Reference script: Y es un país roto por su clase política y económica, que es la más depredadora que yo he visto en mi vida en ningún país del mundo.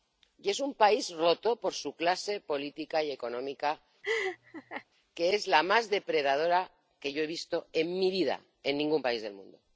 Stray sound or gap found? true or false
true